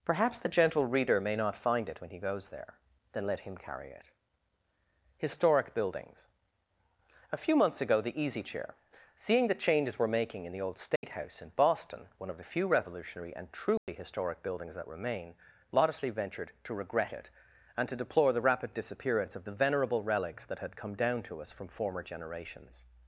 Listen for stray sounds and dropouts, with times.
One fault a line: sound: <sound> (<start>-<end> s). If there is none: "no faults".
sound: dropout (11.0-11.0 s)
sound: dropout (13.8-13.9 s)